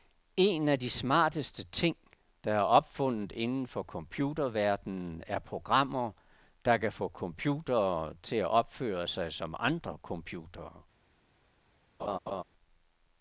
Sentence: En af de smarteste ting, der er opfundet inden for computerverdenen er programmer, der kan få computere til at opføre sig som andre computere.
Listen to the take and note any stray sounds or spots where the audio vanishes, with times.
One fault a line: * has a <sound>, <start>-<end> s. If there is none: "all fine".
* has a laugh, 12.0-12.4 s